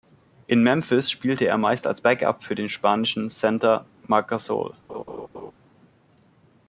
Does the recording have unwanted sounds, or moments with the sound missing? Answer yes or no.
yes